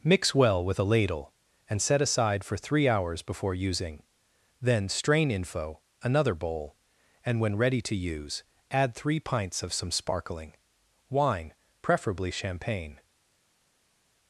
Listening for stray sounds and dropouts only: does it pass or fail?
pass